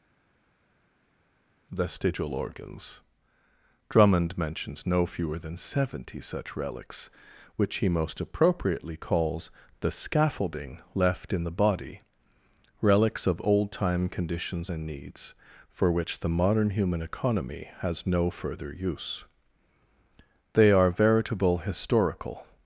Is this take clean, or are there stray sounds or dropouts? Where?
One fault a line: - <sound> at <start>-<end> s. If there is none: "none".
none